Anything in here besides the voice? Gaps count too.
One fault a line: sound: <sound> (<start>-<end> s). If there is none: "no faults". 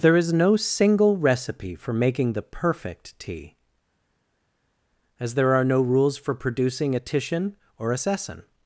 no faults